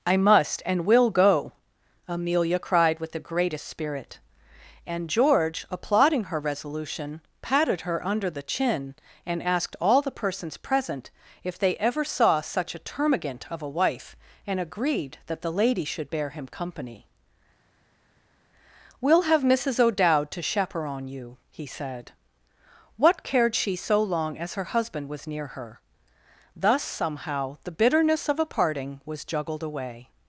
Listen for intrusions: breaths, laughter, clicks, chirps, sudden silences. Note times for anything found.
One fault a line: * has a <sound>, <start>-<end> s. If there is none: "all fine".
all fine